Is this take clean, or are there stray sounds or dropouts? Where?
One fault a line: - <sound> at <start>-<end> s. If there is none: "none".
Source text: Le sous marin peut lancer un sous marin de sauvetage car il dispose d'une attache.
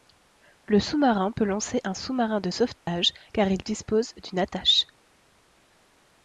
- dropout at 2.8-2.9 s